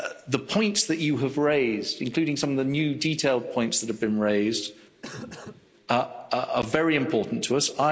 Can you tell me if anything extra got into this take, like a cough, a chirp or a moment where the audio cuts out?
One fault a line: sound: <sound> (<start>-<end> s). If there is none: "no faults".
sound: cough (5.0-5.7 s)